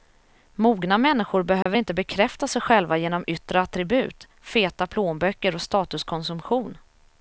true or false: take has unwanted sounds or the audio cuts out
true